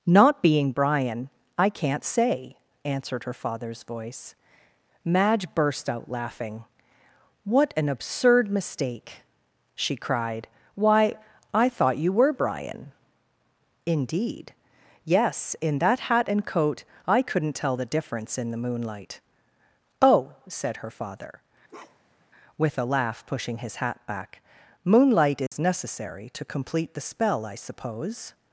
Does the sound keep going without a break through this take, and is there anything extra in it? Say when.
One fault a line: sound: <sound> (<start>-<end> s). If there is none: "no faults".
sound: bark (21.7-22.3 s)
sound: dropout (25.5-25.5 s)